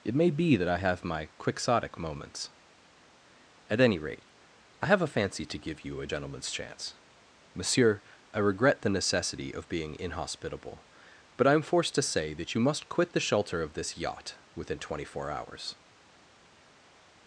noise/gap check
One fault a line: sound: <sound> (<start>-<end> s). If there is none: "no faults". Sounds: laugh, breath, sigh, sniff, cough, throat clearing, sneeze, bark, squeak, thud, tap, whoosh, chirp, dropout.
no faults